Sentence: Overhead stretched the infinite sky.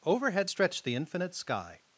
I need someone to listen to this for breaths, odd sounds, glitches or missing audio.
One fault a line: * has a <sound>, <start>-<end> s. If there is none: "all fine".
all fine